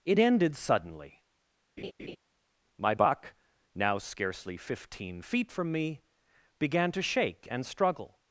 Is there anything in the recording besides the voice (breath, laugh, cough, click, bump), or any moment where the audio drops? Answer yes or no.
yes